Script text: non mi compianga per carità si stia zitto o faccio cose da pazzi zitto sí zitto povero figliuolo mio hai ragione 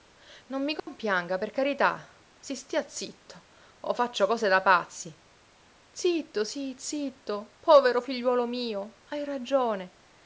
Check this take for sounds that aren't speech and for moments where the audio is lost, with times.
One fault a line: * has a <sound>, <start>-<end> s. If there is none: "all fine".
* has a dropout, 0.8-0.9 s